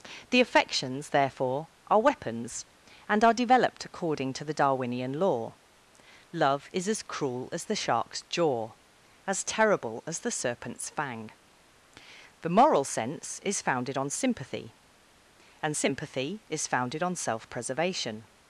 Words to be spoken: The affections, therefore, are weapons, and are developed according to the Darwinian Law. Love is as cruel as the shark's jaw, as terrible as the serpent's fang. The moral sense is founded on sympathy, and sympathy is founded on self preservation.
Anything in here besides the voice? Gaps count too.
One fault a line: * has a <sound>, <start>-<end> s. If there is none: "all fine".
all fine